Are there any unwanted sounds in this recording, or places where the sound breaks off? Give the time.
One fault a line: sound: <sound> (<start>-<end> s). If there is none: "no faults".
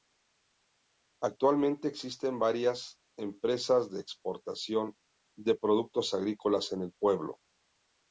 no faults